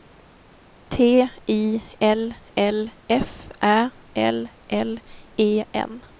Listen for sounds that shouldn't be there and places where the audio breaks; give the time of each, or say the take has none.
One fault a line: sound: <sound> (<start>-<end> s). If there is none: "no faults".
no faults